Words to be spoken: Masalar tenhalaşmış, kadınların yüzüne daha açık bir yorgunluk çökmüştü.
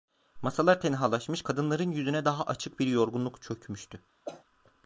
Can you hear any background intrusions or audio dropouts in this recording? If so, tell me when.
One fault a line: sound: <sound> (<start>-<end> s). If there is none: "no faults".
sound: cough (4.3-4.4 s)